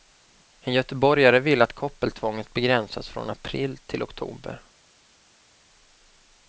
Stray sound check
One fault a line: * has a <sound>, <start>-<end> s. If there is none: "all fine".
all fine